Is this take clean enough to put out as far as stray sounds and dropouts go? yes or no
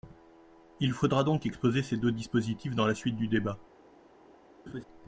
no